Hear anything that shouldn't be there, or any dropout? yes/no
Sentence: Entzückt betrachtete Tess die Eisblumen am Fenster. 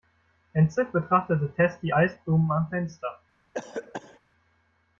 yes